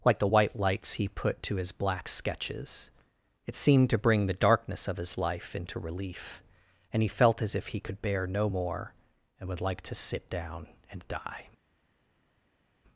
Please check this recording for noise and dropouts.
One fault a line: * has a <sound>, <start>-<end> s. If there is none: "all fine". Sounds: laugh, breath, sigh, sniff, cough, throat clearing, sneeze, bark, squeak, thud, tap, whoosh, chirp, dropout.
all fine